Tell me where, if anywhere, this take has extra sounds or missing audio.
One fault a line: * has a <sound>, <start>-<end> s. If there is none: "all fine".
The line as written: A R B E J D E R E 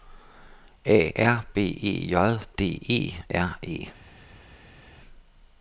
all fine